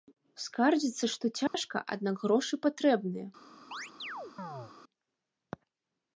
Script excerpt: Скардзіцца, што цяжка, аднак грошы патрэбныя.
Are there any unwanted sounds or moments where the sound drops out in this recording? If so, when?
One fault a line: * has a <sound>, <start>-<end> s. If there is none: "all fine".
* has a dropout, 1.5-1.5 s
* has a chirp, 3.7-4.7 s